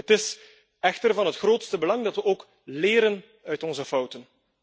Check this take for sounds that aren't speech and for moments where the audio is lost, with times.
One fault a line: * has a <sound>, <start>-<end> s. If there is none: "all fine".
all fine